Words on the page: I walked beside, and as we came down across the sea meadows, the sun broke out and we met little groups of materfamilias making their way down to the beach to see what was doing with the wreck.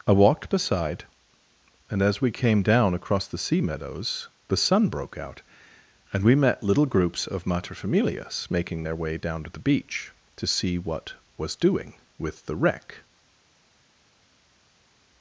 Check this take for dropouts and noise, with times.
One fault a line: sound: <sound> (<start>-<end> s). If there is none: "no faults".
no faults